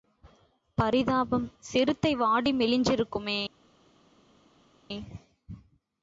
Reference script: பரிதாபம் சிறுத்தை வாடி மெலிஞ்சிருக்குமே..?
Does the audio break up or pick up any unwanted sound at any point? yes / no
no